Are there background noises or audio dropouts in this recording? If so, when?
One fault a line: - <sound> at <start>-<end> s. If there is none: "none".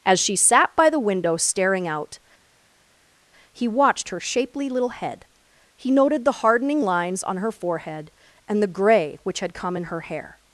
none